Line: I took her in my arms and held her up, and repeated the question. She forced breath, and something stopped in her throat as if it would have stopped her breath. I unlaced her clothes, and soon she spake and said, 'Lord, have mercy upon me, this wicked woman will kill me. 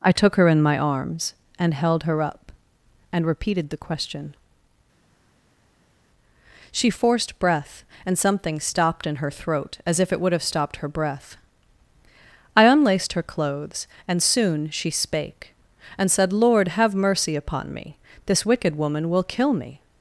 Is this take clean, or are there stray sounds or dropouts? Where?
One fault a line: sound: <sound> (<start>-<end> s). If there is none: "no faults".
no faults